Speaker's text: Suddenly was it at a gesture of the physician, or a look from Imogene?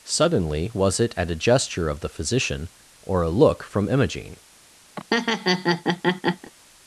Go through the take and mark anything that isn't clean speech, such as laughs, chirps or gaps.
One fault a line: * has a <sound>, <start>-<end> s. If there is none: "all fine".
* has a laugh, 5.0-6.5 s